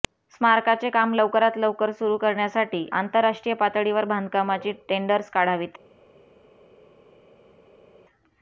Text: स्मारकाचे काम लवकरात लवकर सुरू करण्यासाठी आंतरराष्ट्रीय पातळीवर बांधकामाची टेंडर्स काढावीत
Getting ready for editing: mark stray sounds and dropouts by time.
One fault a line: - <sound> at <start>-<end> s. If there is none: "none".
none